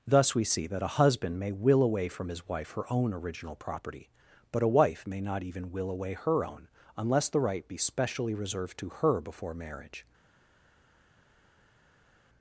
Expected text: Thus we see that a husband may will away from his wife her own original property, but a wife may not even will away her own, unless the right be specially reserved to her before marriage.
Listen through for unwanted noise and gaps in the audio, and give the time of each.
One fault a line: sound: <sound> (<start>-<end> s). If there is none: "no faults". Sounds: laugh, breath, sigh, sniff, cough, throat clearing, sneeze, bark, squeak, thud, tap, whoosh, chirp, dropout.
no faults